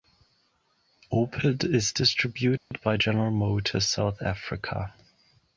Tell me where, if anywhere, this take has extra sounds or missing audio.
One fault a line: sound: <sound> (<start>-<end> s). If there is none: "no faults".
sound: dropout (2.6-2.7 s)